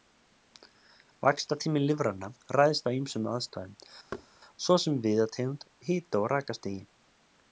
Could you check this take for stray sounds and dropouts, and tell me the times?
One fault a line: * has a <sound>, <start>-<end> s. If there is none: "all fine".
* has a thud, 4.1-4.3 s